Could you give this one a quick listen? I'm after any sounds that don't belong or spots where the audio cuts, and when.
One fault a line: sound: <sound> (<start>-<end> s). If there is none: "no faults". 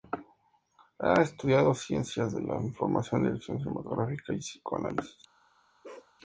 sound: bark (5.8-6.1 s)